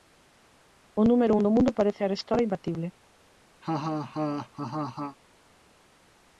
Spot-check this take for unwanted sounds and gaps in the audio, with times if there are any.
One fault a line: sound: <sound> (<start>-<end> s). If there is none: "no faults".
sound: laugh (3.6-5.2 s)